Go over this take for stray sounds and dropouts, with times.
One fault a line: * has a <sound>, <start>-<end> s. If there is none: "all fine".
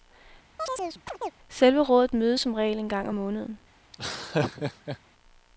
* has a chirp, 0.6-1.3 s
* has a laugh, 3.9-5.0 s